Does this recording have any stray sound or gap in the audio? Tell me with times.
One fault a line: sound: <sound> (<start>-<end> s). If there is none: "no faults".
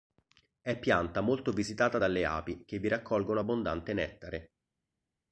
no faults